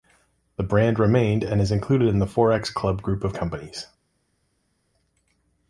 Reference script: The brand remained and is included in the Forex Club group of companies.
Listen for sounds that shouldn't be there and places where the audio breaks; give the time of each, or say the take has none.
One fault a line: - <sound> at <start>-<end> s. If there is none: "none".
none